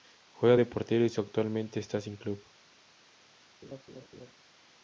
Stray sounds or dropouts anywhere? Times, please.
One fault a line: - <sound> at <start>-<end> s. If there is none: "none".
- laugh at 3.6-4.3 s